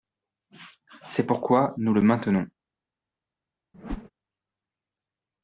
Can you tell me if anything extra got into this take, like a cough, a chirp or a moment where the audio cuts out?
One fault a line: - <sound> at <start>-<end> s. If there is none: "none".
- whoosh at 3.7-4.1 s